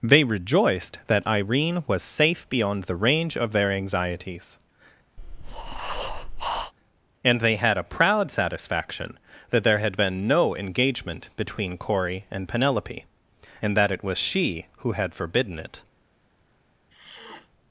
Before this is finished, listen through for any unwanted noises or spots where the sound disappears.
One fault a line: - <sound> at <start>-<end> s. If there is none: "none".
- breath at 5.2-6.7 s
- sniff at 16.9-17.5 s